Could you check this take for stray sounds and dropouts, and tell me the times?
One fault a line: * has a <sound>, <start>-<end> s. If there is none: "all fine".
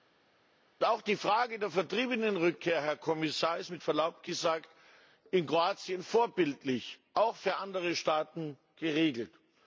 all fine